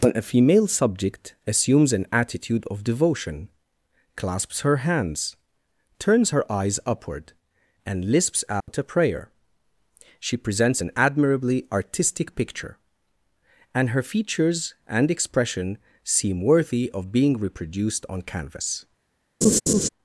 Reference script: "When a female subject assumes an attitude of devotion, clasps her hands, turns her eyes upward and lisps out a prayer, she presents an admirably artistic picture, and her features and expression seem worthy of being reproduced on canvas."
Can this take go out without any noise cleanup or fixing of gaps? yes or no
no